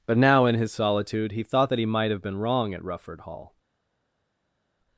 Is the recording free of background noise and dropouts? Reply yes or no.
yes